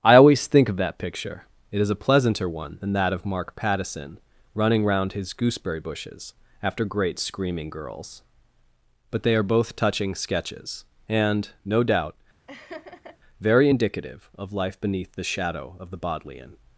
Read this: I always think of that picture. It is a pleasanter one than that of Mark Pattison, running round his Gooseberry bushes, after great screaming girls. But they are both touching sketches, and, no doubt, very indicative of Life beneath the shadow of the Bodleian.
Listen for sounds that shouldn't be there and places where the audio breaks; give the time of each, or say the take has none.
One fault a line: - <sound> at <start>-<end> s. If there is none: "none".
- laugh at 12.5-13.2 s